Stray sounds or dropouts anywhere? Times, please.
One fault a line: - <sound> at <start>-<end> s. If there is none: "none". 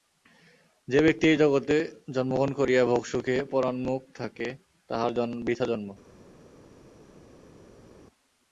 none